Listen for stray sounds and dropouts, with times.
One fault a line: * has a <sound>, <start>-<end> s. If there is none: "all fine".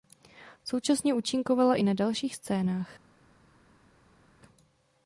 all fine